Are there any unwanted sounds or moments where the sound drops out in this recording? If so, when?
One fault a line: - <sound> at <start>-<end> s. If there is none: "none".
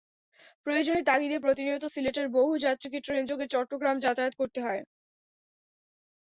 none